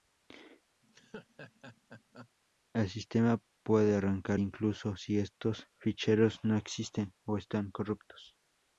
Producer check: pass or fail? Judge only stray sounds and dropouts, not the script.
fail